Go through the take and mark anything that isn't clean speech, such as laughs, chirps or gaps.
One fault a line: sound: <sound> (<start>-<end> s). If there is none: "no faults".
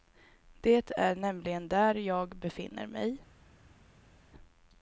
no faults